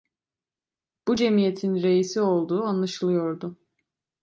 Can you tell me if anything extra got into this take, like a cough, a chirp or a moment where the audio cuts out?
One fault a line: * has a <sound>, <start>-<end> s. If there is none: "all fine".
all fine